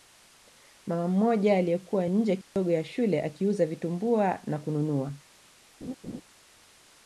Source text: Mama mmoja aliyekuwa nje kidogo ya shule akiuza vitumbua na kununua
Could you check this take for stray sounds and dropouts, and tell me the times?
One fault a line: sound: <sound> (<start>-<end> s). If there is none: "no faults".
sound: dropout (2.4-2.6 s)
sound: laugh (5.8-6.2 s)